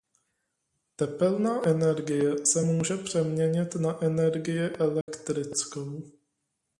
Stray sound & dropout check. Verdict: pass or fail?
fail